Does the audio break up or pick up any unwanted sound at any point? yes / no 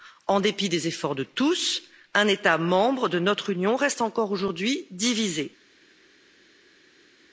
no